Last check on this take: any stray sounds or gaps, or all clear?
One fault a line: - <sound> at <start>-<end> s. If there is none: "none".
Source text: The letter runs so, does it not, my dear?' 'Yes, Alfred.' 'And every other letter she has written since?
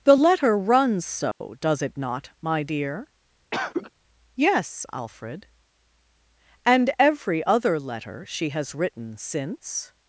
- dropout at 1.3-1.4 s
- cough at 3.5-3.9 s